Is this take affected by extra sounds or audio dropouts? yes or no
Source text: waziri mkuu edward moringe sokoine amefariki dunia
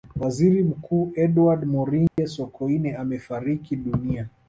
yes